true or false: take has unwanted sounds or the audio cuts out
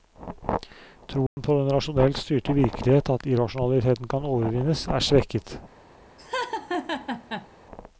true